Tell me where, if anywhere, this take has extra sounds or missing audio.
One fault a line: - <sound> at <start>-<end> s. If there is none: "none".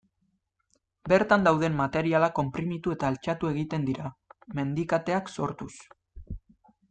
none